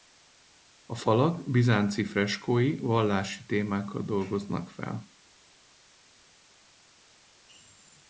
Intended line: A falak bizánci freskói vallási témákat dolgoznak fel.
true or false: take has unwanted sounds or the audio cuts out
false